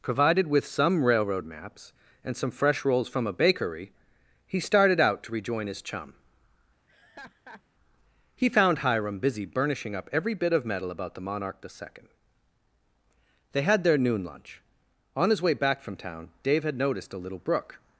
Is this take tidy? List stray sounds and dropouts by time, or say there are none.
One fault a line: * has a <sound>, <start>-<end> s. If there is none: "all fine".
* has a laugh, 6.9-7.6 s